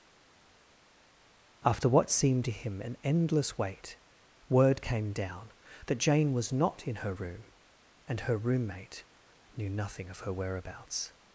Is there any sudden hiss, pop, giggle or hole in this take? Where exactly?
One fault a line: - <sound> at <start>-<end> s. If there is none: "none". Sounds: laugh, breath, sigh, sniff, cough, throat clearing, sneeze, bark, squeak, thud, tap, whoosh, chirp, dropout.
none